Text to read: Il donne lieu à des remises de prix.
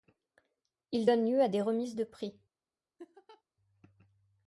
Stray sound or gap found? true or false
true